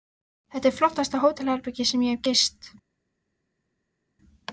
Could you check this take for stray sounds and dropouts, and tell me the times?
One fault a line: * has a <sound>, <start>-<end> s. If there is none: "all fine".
all fine